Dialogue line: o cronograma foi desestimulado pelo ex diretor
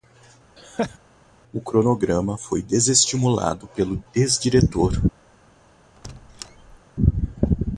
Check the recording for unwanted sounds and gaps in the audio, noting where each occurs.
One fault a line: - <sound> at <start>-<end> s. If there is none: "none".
- laugh at 0.6-1.0 s
- squeak at 6.0-6.8 s